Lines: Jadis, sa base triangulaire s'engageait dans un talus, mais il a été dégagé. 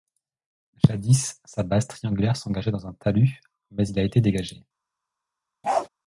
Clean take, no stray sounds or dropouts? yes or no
no